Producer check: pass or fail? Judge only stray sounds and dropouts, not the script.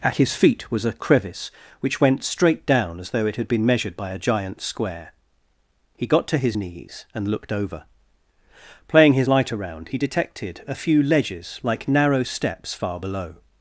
pass